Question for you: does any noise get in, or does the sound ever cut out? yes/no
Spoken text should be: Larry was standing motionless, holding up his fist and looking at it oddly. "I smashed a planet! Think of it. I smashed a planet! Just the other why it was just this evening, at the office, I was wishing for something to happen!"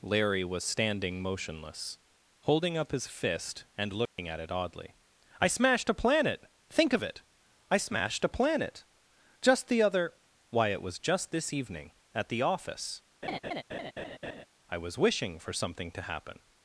yes